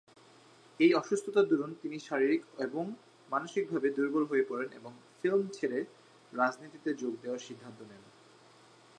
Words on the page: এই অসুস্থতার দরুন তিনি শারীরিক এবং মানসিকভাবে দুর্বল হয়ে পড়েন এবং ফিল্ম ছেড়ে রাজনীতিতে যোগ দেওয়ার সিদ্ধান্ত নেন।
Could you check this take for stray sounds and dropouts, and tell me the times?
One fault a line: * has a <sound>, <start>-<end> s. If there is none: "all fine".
all fine